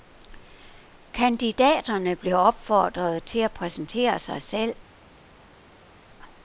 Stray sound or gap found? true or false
false